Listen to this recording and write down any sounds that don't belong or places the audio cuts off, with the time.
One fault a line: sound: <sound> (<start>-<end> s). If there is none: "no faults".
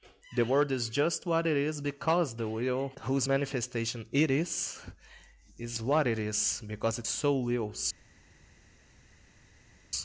no faults